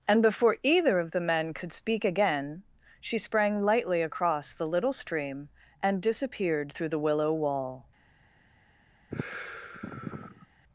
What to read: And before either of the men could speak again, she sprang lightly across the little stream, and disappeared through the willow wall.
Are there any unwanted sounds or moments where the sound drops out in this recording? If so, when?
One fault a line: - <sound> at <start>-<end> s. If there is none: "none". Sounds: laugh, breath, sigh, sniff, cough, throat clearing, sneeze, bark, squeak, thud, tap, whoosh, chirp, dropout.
- sigh at 9.1-10.5 s